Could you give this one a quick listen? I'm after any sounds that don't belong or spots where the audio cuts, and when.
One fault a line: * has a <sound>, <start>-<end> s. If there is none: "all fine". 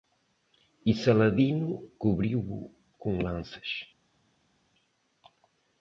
all fine